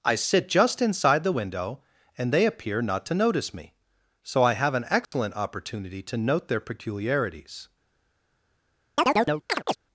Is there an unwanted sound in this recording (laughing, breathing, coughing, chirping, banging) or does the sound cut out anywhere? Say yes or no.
yes